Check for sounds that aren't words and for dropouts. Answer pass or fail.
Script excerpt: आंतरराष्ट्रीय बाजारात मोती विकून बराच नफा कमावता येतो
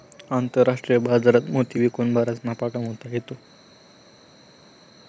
pass